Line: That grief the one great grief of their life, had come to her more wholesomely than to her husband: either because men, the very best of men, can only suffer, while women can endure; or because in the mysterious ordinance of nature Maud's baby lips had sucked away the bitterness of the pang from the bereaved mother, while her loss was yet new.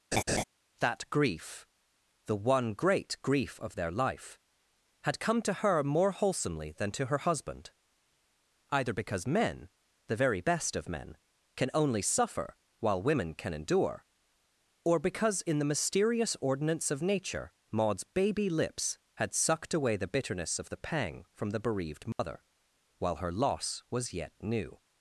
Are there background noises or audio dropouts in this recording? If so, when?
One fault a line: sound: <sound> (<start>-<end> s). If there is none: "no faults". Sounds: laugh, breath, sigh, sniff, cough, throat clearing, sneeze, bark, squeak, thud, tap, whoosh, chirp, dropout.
sound: laugh (0.1-0.4 s)
sound: dropout (22.1-22.2 s)